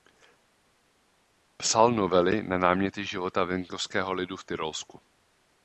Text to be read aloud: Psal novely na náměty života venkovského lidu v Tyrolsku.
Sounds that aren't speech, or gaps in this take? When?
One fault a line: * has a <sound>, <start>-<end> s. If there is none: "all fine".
all fine